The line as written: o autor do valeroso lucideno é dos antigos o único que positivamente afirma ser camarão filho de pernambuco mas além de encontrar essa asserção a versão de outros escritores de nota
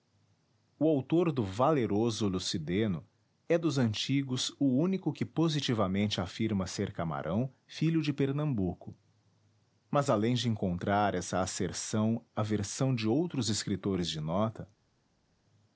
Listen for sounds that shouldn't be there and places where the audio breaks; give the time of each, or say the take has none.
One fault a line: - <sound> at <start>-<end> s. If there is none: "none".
none